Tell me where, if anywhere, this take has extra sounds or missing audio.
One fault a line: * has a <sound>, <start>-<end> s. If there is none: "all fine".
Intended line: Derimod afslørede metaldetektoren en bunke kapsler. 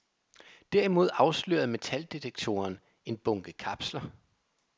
all fine